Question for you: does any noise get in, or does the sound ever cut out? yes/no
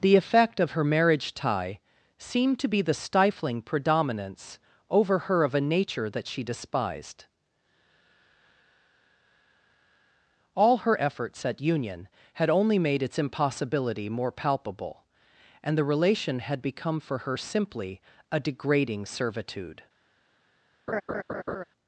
yes